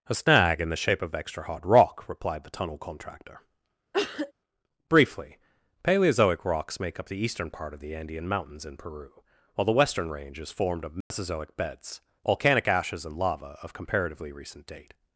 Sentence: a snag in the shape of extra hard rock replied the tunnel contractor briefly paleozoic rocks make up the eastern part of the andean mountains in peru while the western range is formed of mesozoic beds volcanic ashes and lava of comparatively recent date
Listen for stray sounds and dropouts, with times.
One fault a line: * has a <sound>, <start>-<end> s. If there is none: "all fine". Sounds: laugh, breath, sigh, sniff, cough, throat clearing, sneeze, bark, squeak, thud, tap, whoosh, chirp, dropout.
* has a cough, 3.9-4.3 s
* has a dropout, 11.0-11.1 s